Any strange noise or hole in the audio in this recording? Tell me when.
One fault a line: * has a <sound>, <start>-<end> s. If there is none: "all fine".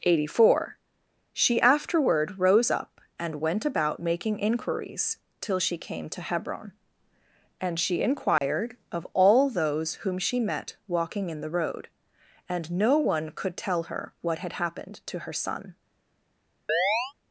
* has a dropout, 8.4-8.4 s
* has a chirp, 16.7-17.1 s